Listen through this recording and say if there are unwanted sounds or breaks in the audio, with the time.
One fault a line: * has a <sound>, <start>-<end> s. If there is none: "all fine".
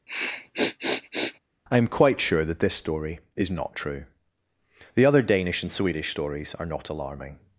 * has a sniff, 0.1-1.4 s